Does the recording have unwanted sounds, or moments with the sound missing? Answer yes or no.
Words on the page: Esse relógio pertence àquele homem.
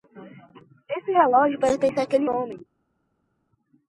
no